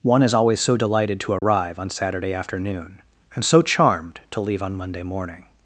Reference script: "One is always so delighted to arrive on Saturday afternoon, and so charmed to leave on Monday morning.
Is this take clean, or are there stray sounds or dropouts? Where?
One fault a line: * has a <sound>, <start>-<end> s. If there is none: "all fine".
* has a dropout, 1.4-1.4 s